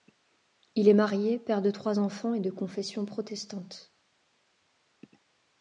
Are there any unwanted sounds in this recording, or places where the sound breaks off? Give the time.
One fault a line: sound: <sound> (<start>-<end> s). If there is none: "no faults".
no faults